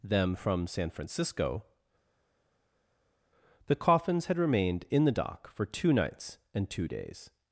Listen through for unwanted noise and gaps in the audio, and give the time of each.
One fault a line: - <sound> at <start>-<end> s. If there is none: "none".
none